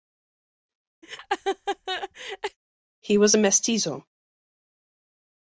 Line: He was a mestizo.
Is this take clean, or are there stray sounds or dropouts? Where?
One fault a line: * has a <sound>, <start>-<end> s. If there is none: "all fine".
* has a laugh, 1.0-2.6 s